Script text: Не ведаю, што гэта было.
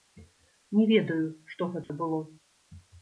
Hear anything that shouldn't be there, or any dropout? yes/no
yes